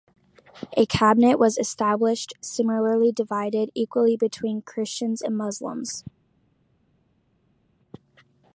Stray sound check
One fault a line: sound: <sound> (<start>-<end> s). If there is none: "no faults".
no faults